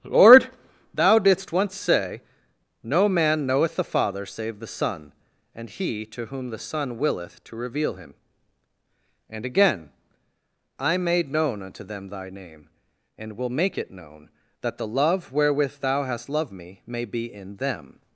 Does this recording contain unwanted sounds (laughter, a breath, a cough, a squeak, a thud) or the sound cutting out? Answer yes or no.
no